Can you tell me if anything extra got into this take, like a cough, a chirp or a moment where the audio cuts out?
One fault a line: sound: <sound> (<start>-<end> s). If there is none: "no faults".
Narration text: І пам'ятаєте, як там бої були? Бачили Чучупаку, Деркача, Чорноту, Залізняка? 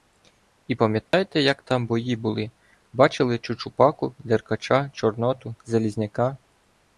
sound: dropout (1.1-1.1 s)